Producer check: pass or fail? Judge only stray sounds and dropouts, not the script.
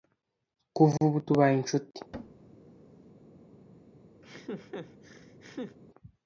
fail